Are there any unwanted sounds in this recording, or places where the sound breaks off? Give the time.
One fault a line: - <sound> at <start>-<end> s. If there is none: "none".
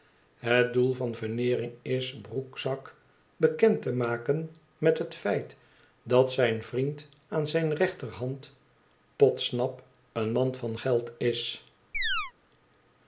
- chirp at 11.9-12.3 s